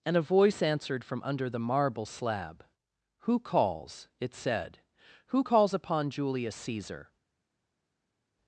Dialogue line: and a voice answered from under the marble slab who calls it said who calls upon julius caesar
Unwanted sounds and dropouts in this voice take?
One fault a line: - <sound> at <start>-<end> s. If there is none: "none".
none